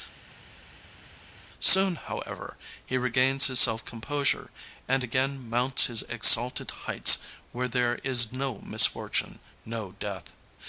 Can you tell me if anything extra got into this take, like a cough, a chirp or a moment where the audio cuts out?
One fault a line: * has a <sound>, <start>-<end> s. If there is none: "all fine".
all fine